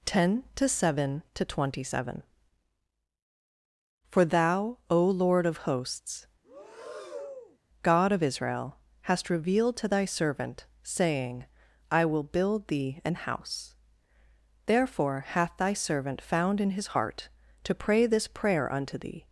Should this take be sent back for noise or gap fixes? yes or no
yes